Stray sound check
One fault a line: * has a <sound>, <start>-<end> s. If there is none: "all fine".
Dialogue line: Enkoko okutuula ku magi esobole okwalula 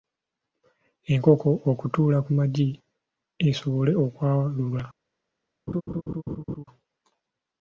* has a laugh, 5.7-6.6 s